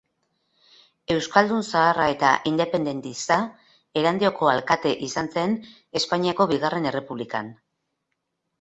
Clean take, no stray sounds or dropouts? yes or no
yes